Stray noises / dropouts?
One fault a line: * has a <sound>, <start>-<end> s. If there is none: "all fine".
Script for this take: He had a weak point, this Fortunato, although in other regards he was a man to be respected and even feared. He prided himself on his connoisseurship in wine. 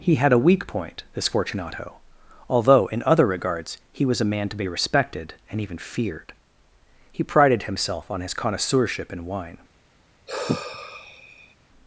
* has a sigh, 10.3-11.5 s